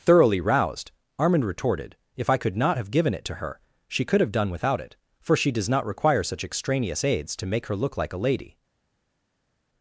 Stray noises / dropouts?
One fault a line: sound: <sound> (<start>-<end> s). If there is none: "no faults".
no faults